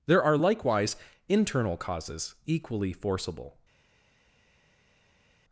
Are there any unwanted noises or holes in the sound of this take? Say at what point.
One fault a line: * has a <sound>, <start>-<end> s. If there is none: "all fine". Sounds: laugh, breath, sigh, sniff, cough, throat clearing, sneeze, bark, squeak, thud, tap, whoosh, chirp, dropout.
all fine